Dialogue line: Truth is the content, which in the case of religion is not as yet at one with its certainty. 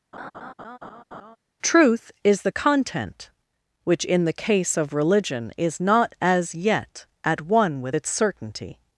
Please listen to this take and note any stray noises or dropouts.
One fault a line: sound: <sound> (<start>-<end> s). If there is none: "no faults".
sound: laugh (0.1-1.4 s)